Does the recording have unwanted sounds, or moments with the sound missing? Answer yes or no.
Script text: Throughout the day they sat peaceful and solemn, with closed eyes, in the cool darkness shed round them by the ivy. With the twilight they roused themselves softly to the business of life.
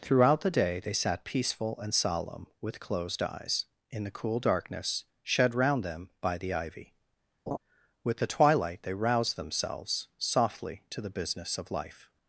yes